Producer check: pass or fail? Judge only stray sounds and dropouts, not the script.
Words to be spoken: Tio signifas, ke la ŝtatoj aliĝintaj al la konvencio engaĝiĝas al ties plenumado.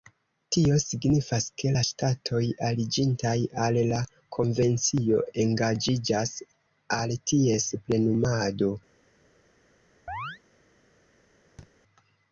fail